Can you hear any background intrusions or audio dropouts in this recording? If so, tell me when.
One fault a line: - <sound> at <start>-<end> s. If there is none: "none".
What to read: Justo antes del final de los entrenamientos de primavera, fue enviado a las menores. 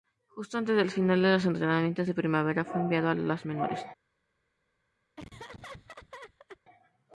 - laugh at 5.2-6.6 s